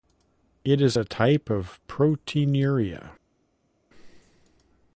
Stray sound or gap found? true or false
false